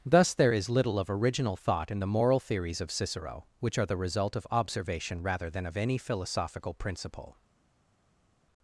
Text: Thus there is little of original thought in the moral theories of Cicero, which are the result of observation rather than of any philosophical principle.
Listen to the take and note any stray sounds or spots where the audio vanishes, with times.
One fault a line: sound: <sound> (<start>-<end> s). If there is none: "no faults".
no faults